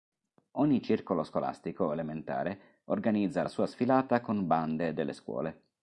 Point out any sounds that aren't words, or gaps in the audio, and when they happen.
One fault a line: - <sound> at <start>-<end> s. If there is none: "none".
none